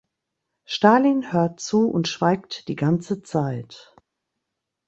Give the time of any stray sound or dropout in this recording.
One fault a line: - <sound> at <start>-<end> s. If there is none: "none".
none